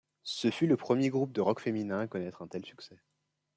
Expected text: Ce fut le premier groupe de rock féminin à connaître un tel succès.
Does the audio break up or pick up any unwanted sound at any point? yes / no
no